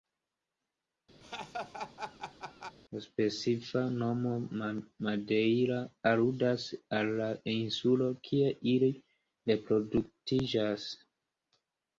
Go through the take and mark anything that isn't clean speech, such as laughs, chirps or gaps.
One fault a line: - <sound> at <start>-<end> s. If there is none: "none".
- laugh at 1.2-2.8 s